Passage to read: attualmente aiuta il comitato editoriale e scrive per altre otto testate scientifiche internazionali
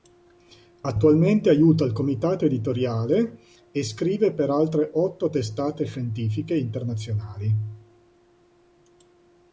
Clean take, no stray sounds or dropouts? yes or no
yes